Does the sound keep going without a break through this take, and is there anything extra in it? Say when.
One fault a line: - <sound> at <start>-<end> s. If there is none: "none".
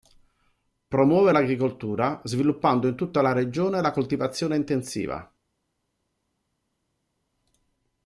none